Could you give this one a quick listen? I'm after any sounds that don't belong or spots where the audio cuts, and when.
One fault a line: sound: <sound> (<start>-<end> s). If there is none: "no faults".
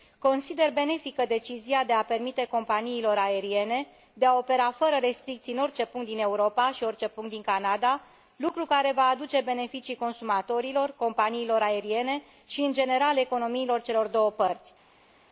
no faults